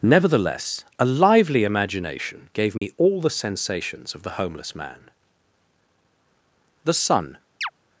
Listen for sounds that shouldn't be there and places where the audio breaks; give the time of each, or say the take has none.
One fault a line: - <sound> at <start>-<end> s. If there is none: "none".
- dropout at 2.8-2.8 s
- chirp at 7.6-7.7 s